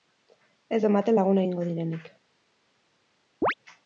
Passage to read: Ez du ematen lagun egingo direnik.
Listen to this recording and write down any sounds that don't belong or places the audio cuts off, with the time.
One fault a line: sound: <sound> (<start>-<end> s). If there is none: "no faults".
sound: chirp (3.4-3.5 s)